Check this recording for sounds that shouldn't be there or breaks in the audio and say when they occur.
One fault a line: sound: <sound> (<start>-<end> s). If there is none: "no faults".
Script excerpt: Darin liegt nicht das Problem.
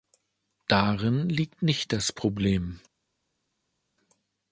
no faults